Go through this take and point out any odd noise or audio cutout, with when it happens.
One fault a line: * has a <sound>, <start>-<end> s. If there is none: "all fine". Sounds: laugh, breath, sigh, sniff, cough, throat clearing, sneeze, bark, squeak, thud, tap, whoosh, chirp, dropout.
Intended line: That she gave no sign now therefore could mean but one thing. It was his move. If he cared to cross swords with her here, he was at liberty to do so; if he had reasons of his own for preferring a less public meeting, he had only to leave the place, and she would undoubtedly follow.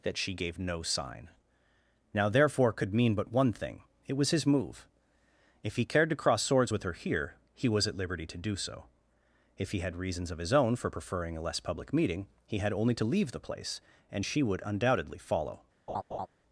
* has a laugh, 15.9-16.3 s